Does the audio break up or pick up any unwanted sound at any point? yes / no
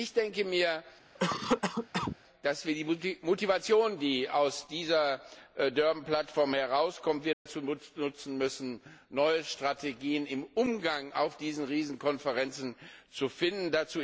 yes